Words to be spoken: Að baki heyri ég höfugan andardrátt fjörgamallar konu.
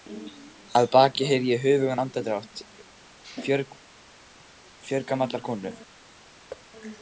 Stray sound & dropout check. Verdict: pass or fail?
fail